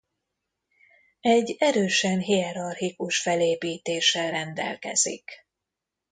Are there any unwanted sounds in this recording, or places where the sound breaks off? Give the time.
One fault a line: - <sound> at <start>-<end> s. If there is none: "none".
none